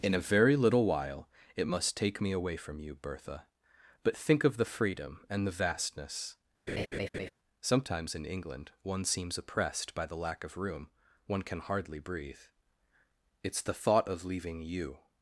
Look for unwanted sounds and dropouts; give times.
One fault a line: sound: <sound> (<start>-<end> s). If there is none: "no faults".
sound: laugh (6.7-7.3 s)